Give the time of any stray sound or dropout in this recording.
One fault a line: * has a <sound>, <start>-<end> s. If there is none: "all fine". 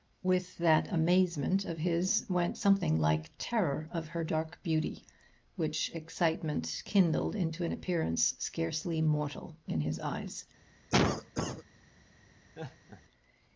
* has a cough, 10.9-11.6 s
* has a laugh, 12.5-13.0 s